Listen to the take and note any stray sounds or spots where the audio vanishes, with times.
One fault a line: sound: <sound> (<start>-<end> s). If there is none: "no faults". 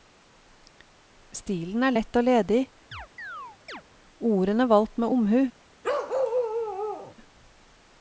sound: chirp (2.9-3.8 s)
sound: bark (5.8-7.2 s)